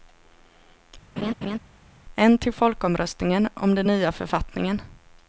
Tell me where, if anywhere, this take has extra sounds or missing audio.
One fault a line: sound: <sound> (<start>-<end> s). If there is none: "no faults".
sound: laugh (1.2-1.6 s)